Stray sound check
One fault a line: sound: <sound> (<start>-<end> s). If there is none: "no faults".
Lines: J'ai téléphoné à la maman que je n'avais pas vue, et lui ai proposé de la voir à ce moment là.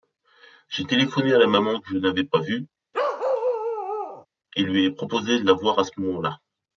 sound: bark (2.9-4.3 s)